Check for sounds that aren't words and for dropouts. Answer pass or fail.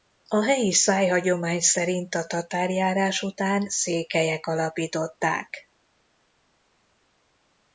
pass